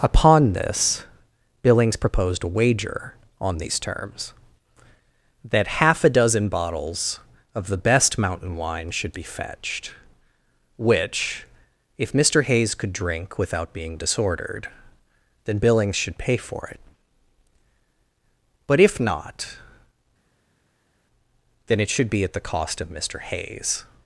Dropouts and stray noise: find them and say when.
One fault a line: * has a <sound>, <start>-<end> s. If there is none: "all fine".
all fine